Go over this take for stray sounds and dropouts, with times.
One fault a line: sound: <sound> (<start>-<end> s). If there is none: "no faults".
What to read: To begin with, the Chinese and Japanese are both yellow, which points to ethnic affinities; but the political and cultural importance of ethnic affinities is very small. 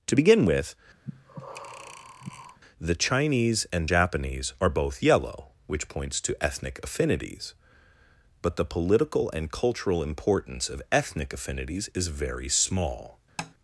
sound: breath (1.0-2.6 s)
sound: tap (13.4-13.5 s)